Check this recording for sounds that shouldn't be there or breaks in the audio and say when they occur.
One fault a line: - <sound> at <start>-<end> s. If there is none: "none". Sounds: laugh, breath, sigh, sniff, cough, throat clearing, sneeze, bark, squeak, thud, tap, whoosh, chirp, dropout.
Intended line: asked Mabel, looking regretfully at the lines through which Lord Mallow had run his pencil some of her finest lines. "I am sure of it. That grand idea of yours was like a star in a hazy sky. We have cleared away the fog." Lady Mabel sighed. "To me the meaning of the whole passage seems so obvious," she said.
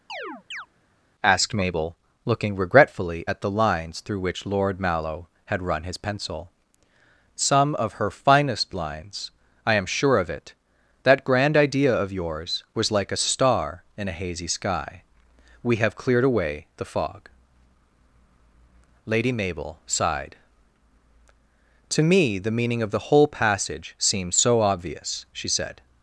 - chirp at 0.1-0.7 s